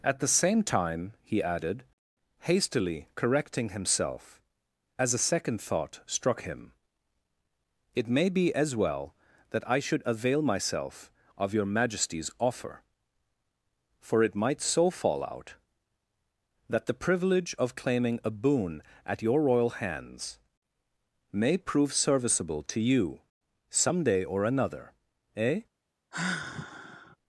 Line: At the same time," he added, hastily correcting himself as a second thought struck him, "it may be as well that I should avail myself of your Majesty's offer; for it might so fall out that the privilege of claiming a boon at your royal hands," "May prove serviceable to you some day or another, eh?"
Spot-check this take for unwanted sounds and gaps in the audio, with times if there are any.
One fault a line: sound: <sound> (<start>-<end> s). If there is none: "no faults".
sound: sigh (26.1-27.2 s)